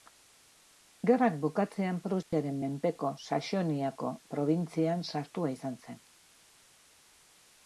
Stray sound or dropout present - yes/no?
yes